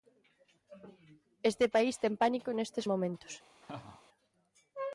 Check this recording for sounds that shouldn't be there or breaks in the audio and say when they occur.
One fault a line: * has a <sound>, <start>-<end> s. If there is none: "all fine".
* has a laugh, 3.6-4.0 s